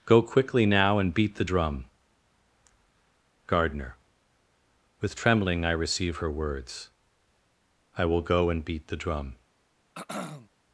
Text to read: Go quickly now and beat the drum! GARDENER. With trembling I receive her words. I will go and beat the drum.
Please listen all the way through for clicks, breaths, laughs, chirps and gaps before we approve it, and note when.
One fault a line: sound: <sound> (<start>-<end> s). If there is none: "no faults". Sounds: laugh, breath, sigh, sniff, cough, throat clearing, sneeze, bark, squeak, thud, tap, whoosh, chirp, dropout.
sound: throat clearing (10.0-10.5 s)